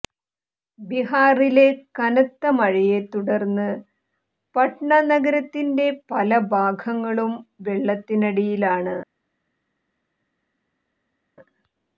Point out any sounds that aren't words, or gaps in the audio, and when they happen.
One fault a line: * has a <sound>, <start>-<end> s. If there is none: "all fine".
all fine